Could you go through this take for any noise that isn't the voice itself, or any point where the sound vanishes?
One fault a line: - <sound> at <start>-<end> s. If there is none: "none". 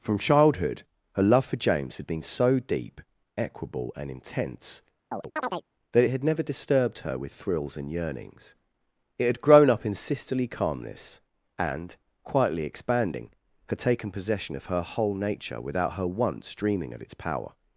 - chirp at 5.1-5.7 s